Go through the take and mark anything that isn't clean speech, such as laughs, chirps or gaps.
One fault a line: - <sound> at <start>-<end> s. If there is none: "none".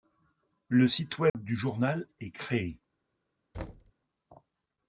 - dropout at 1.3-1.3 s
- thud at 3.5-3.9 s